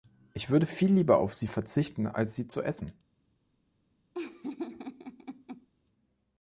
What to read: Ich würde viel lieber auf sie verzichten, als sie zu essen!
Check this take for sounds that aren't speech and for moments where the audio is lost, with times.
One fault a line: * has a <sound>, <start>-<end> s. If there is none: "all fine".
* has a laugh, 4.1-5.7 s